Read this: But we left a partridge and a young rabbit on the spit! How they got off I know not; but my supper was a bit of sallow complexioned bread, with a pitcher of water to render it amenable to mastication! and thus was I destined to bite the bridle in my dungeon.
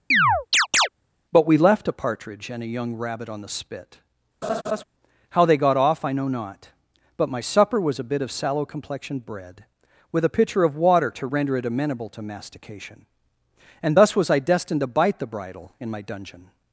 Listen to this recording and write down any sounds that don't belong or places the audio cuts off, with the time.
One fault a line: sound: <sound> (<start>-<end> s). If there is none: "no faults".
sound: chirp (0.1-0.9 s)
sound: laugh (4.4-4.8 s)